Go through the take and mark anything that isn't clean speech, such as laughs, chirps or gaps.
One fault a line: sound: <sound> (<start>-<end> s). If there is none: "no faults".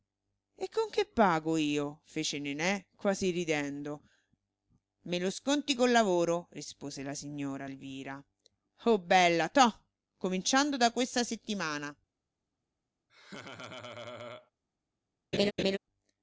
sound: laugh (13.1-14.5 s)
sound: laugh (15.3-15.8 s)